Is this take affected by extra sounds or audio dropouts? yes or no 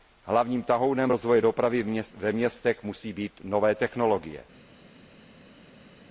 no